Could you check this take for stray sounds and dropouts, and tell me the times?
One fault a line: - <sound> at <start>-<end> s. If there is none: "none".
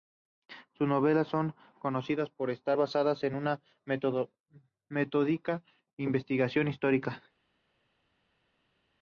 none